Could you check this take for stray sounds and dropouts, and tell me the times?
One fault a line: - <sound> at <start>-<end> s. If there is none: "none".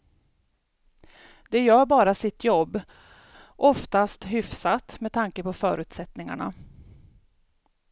none